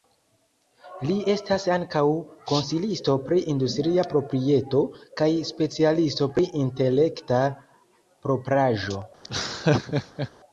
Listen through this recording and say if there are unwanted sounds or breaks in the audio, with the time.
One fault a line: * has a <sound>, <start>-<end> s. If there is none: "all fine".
* has a laugh, 9.2-10.3 s